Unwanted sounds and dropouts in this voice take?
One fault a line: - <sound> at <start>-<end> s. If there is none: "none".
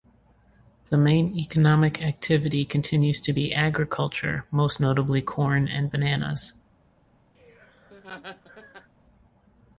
- laugh at 7.3-8.9 s